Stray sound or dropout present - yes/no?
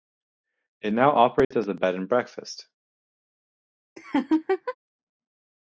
yes